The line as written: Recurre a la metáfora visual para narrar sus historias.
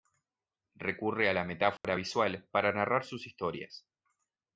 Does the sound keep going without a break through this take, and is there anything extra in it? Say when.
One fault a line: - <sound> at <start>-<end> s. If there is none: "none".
- dropout at 1.8-1.8 s